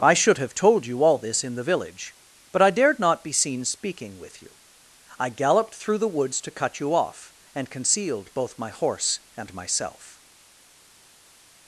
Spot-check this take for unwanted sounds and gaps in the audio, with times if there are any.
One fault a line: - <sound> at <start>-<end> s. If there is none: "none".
none